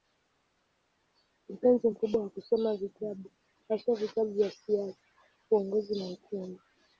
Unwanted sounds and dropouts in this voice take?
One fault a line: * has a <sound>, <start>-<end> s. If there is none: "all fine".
all fine